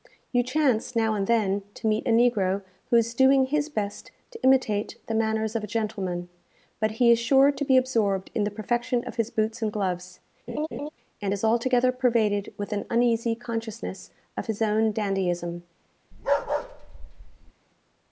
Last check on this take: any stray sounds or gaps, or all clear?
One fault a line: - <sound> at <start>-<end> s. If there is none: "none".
- laugh at 10.5-10.9 s
- bark at 16.1-17.5 s